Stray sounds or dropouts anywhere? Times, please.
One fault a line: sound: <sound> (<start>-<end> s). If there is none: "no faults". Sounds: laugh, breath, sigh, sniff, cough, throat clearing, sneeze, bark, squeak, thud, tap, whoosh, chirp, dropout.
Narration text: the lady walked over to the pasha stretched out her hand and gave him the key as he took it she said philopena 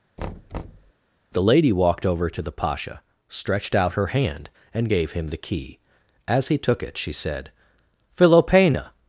sound: thud (0.2-0.9 s)